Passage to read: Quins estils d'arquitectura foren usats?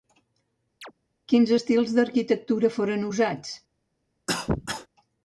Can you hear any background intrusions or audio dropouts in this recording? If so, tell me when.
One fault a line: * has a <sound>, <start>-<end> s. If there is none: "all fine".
* has a chirp, 0.8-0.9 s
* has a cough, 4.3-4.9 s